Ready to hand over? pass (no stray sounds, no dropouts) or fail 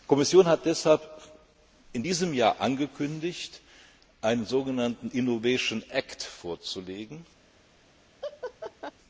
fail